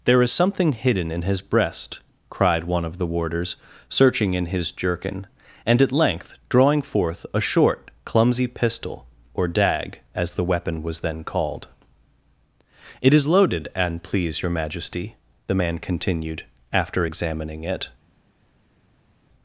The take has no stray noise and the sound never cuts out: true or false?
true